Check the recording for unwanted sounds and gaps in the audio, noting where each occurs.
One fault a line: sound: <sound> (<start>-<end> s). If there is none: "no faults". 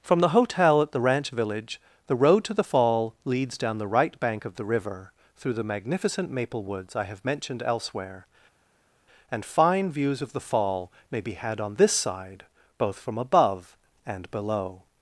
no faults